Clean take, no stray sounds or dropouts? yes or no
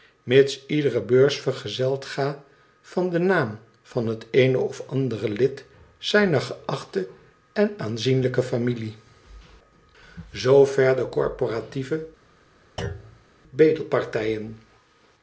no